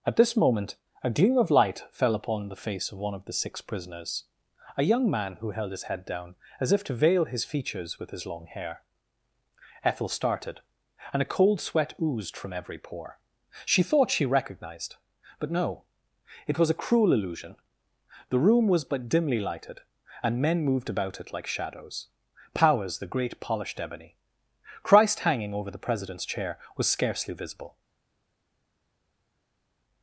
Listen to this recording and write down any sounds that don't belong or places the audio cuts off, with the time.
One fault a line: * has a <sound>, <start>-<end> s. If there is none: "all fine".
all fine